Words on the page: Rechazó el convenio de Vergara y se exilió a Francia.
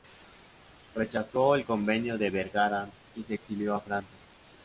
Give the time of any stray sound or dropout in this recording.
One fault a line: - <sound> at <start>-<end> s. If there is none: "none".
none